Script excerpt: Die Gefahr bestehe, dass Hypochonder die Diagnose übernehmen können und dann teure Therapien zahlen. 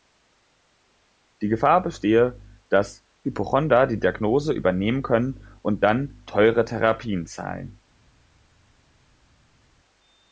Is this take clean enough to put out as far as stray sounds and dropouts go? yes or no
yes